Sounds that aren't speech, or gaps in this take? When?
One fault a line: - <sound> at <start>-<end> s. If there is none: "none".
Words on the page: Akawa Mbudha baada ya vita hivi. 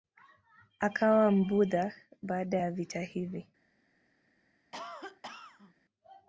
- cough at 4.7-5.7 s